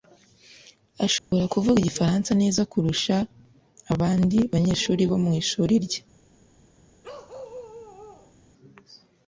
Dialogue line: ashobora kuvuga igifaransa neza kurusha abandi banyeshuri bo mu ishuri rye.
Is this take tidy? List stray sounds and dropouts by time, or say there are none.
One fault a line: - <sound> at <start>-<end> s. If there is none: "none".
- dropout at 1.2-1.3 s
- bark at 7.0-8.3 s